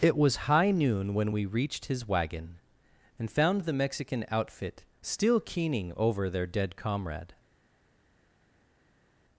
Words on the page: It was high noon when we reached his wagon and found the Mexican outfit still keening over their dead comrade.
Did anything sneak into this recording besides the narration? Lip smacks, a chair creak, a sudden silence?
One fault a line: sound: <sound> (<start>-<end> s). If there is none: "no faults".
no faults